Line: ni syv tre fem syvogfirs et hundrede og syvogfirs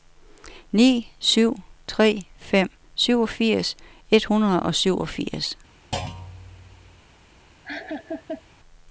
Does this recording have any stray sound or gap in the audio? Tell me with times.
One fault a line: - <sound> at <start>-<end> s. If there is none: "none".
- thud at 5.9-7.0 s
- laugh at 7.6-8.4 s